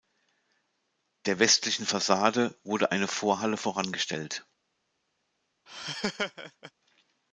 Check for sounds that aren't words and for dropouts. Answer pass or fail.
fail